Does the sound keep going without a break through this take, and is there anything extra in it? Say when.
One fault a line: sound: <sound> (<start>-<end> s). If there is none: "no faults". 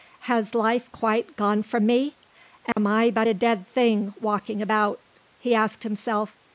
sound: dropout (2.7-2.8 s)